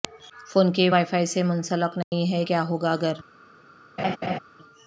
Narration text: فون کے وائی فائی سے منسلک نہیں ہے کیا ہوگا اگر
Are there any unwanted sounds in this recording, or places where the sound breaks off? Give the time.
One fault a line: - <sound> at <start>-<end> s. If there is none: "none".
- dropout at 2.0-2.1 s
- laugh at 4.0-4.4 s